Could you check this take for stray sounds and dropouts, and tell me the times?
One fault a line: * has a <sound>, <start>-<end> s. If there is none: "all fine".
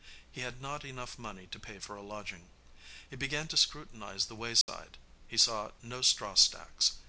* has a dropout, 4.6-4.7 s